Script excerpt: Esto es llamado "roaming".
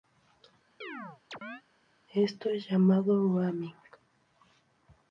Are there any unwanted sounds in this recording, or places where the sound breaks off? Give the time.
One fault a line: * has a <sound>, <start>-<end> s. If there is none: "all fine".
* has a chirp, 0.8-1.6 s